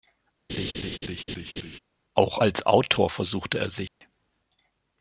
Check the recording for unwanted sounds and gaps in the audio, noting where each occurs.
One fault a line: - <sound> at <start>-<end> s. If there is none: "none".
- laugh at 0.5-1.8 s
- dropout at 3.9-4.0 s